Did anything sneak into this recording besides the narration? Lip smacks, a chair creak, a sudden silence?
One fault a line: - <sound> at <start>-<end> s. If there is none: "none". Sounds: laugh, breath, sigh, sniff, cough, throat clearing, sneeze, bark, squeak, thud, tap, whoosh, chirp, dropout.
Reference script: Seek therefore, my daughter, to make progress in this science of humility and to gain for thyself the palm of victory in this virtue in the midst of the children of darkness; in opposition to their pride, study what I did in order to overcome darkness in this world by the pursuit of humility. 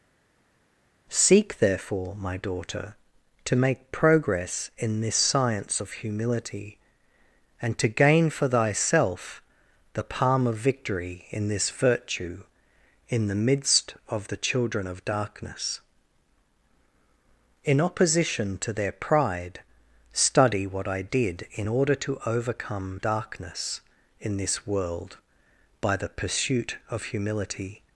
none